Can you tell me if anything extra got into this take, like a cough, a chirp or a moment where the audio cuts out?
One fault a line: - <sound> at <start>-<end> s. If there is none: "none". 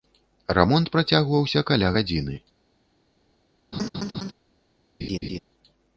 - laugh at 3.7-4.3 s
- laugh at 5.0-5.4 s